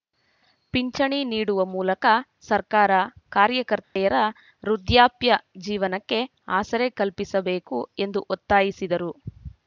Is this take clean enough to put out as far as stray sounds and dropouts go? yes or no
no